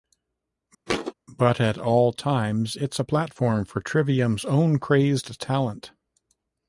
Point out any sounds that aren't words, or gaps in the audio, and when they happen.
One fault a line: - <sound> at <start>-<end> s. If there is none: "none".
- thud at 0.9-1.1 s